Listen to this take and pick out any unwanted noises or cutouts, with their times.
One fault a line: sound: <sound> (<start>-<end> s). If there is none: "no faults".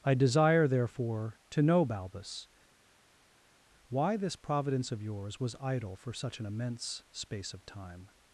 no faults